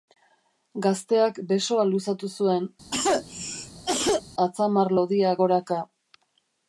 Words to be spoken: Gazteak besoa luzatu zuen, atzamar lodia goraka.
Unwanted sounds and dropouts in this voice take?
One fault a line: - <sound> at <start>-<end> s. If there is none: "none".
- cough at 2.9-4.2 s